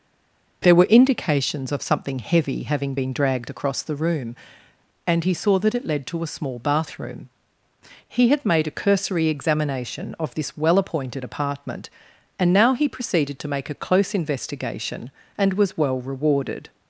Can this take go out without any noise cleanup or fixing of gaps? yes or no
yes